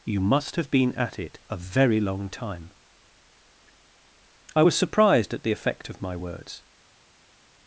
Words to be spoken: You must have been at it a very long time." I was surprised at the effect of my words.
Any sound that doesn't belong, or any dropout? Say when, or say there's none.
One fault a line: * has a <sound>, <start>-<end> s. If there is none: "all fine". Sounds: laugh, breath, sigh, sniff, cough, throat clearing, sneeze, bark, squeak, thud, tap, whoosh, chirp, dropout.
all fine